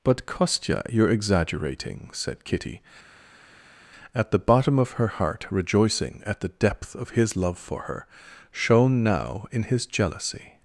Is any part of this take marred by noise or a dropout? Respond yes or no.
no